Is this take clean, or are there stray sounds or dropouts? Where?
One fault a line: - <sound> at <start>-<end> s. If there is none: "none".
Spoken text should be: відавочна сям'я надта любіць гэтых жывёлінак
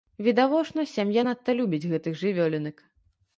none